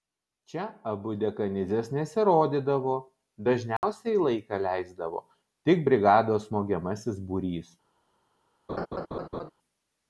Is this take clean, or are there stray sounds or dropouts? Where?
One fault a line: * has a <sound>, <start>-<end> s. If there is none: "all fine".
* has a dropout, 3.8-3.8 s
* has a laugh, 8.7-9.5 s